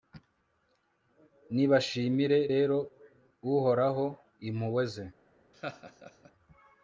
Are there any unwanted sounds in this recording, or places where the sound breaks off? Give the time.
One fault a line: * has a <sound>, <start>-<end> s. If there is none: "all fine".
* has a laugh, 5.5-6.3 s